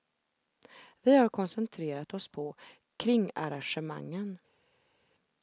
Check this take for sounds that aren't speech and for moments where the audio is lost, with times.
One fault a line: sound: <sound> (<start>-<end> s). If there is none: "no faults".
no faults